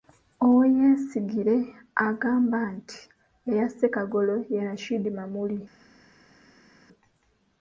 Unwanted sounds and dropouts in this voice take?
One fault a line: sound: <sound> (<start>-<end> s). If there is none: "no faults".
no faults